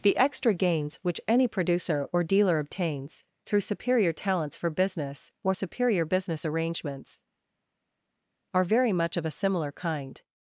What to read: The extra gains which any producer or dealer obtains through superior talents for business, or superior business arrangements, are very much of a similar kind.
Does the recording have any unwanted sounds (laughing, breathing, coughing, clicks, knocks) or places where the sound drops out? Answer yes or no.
no